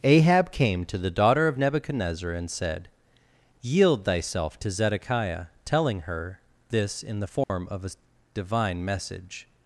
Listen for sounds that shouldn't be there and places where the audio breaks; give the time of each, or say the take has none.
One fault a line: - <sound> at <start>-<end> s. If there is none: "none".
- dropout at 7.4-7.5 s